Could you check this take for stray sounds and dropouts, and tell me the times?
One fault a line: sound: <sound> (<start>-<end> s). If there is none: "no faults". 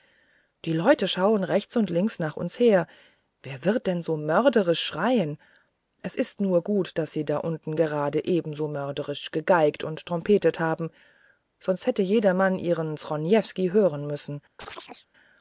sound: chirp (14.6-15.1 s)